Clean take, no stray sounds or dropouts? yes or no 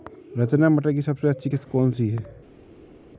yes